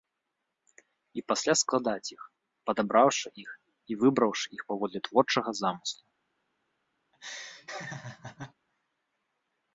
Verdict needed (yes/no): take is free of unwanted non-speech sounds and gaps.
no